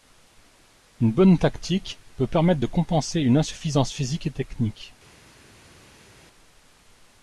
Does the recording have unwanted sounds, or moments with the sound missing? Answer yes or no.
no